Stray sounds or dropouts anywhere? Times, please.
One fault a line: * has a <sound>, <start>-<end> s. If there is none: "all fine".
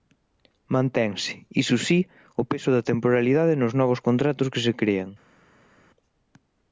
all fine